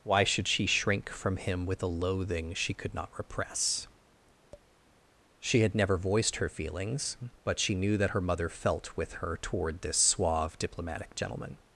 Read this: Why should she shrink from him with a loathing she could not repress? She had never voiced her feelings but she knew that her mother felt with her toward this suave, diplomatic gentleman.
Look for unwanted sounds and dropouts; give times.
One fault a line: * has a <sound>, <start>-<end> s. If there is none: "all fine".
* has a tap, 4.5-4.7 s